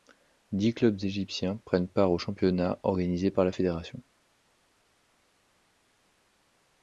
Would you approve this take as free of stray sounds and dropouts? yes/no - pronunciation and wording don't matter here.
yes